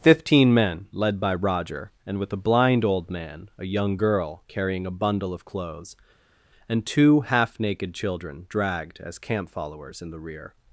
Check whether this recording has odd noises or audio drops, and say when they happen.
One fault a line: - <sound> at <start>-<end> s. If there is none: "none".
none